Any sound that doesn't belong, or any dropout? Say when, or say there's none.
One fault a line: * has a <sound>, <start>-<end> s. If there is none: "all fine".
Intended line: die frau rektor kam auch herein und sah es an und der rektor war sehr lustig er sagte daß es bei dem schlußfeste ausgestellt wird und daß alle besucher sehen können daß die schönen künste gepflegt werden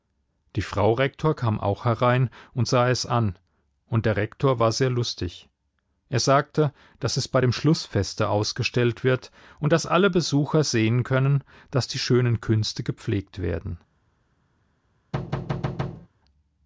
* has a thud, 15.1-16.1 s